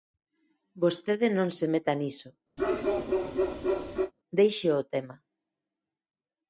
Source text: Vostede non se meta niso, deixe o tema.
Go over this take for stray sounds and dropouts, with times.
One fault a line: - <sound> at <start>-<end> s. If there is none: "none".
- bark at 2.6-4.1 s